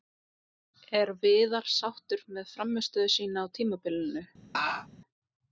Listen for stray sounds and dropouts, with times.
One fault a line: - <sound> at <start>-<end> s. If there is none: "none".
- laugh at 4.5-4.9 s